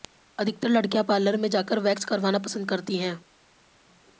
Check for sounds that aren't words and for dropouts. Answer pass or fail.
pass